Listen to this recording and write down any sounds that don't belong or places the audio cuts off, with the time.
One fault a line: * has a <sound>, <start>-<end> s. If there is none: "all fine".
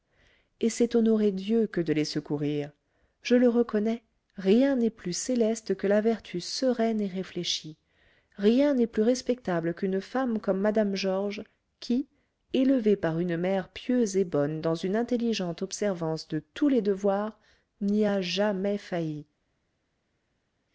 all fine